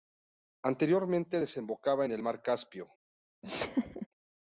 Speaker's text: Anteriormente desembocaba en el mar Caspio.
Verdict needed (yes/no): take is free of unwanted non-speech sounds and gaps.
no